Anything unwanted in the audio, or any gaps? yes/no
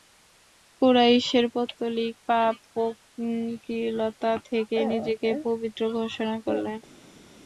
no